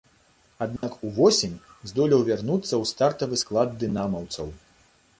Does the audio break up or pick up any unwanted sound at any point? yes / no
yes